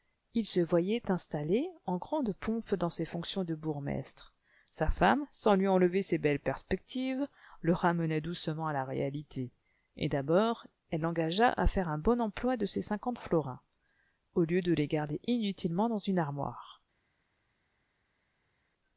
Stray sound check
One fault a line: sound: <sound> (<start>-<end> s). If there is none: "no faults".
no faults